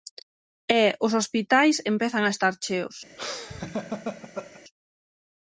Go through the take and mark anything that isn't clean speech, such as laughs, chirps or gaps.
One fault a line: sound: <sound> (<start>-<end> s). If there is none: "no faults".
sound: laugh (3.2-4.6 s)